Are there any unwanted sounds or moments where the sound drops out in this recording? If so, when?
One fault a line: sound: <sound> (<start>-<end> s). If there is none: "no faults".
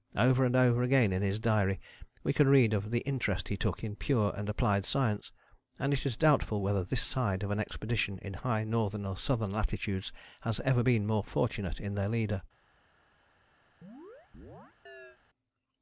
sound: chirp (13.8-15.2 s)